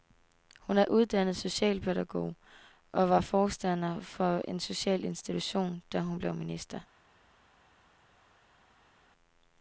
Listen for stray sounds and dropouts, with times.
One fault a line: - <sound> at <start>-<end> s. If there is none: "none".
none